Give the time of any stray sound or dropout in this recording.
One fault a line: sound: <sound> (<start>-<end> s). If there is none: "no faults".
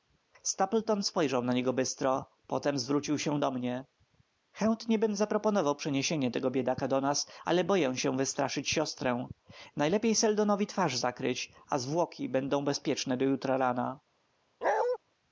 sound: bark (14.6-15.0 s)